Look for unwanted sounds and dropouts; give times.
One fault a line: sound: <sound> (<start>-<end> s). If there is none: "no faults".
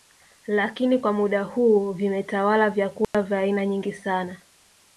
sound: dropout (3.0-3.1 s)